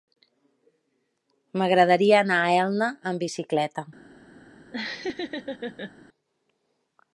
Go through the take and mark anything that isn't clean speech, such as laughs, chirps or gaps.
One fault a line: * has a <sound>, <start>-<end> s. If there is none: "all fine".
* has a laugh, 4.7-5.9 s